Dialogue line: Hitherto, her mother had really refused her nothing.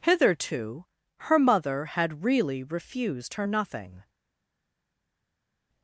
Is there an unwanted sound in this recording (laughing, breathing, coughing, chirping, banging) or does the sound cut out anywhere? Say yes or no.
no